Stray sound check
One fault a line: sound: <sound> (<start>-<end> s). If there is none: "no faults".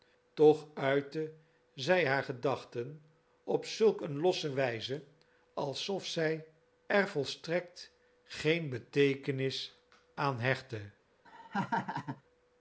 sound: laugh (11.2-12.2 s)